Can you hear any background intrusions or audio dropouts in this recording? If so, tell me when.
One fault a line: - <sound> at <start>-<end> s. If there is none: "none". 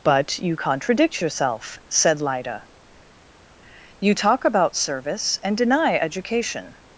none